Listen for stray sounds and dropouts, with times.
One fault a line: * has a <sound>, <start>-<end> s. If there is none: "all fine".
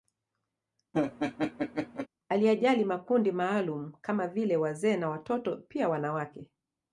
* has a laugh, 0.9-2.1 s